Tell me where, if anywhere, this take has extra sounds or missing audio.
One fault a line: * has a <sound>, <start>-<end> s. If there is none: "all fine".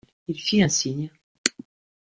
all fine